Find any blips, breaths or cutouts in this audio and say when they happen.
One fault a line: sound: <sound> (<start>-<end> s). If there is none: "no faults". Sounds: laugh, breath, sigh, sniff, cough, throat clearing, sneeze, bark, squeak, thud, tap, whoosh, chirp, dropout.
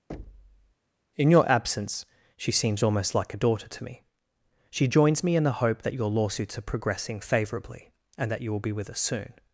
sound: thud (0.1-0.7 s)